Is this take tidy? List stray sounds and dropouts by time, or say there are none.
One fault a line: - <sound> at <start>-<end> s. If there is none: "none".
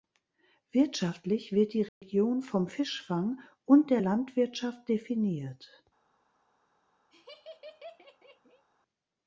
- dropout at 1.9-2.0 s
- laugh at 7.1-8.7 s